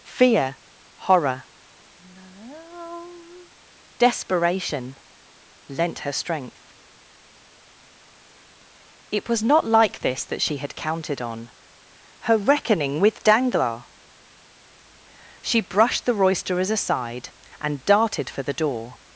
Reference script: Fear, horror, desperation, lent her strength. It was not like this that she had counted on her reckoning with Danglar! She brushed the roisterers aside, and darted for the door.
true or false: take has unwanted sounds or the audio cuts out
true